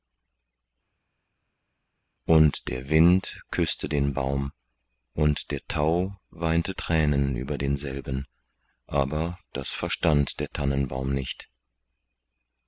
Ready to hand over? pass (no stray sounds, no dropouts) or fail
pass